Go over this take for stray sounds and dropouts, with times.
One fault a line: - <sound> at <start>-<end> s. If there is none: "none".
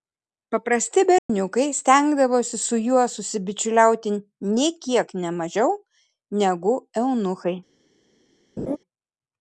- dropout at 1.2-1.3 s
- laugh at 8.6-8.8 s